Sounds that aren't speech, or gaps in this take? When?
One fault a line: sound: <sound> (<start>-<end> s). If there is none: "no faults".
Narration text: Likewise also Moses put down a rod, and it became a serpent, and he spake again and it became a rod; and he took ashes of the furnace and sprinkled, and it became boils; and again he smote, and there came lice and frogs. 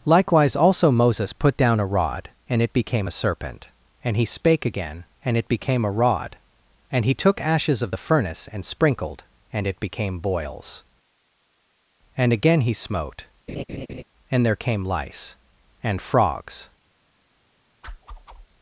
sound: laugh (13.5-14.0 s)
sound: whoosh (17.8-18.5 s)